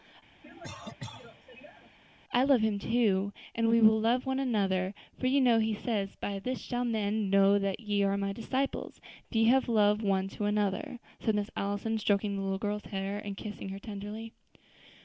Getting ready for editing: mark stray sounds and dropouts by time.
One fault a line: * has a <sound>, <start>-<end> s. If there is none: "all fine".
* has a cough, 0.4-2.0 s